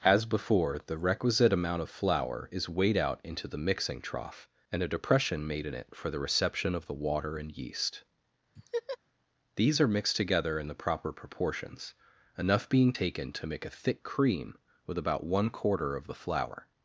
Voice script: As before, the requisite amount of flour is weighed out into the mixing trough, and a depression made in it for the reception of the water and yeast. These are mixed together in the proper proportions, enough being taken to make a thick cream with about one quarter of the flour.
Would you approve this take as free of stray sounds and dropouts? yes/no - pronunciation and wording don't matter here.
no